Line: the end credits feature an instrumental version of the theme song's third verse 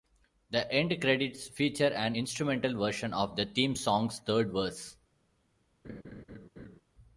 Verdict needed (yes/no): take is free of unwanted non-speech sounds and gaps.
no